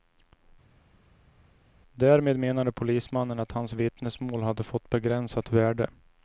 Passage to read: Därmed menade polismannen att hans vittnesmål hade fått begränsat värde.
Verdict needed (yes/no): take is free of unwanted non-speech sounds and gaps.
yes